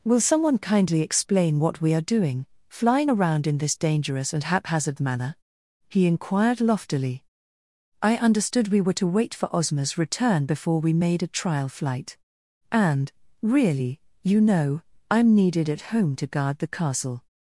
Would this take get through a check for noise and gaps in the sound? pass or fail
pass